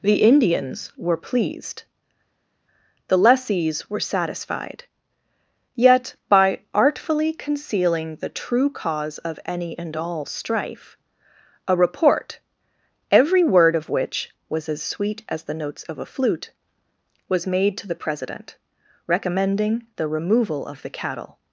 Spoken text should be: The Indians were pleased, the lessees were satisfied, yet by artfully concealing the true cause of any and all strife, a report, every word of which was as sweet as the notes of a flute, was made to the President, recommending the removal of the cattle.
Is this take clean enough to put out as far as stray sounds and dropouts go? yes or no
yes